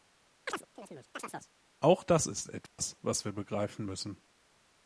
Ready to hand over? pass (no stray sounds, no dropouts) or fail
fail